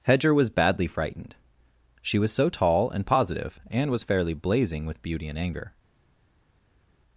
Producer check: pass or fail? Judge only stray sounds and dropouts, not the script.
pass